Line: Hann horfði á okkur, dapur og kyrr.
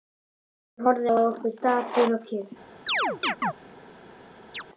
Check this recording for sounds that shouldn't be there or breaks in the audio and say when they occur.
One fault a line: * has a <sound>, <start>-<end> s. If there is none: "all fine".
* has a chirp, 2.9-3.5 s
* has a chirp, 4.5-4.6 s